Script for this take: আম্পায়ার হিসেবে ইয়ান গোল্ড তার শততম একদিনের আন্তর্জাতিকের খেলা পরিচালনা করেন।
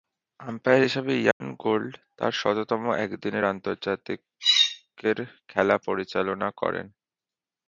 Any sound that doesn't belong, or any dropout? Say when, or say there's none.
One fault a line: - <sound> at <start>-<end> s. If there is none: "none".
- dropout at 1.3-1.4 s